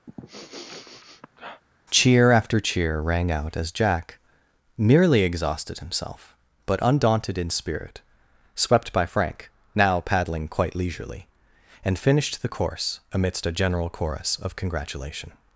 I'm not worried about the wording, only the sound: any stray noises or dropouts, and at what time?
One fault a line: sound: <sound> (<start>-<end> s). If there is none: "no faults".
sound: sniff (0.1-1.6 s)